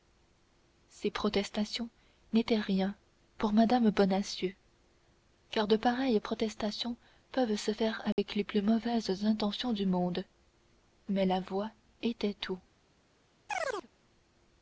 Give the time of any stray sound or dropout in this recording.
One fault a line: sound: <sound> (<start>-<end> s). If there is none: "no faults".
sound: dropout (8.1-8.2 s)
sound: chirp (13.5-13.9 s)